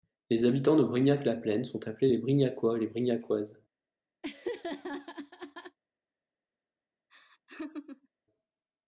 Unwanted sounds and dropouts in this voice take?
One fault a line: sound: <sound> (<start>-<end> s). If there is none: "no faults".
sound: laugh (4.2-5.8 s)
sound: laugh (7.1-8.1 s)